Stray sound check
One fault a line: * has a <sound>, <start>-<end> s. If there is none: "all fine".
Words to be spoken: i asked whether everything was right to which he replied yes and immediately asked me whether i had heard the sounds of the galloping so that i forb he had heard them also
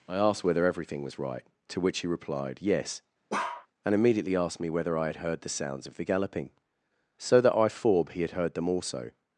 * has a bark, 3.3-3.7 s